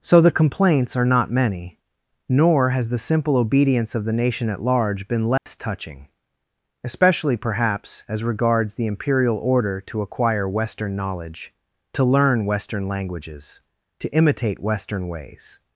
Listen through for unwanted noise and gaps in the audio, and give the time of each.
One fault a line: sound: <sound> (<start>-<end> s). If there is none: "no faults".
sound: dropout (5.4-5.5 s)